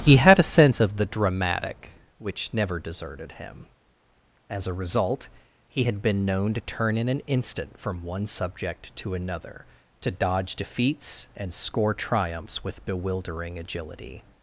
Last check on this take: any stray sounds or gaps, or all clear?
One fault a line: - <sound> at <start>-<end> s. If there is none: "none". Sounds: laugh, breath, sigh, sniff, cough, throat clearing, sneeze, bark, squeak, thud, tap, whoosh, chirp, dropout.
none